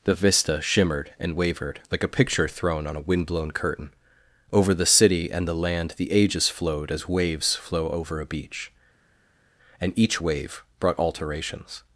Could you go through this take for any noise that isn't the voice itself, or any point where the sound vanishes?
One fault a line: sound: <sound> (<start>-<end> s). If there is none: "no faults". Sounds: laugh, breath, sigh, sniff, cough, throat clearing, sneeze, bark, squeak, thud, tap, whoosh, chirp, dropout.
no faults